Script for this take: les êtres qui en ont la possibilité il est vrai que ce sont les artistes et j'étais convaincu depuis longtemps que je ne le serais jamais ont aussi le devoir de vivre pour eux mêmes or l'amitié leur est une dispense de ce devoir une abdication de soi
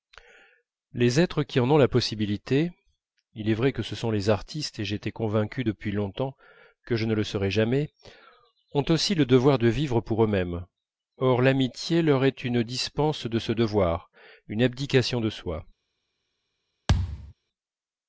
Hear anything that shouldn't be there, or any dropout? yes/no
yes